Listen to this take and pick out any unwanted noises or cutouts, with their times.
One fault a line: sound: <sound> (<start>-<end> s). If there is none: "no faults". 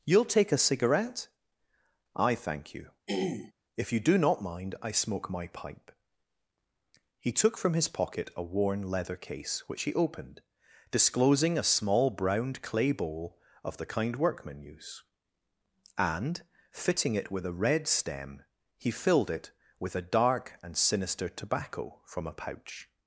sound: throat clearing (3.1-3.5 s)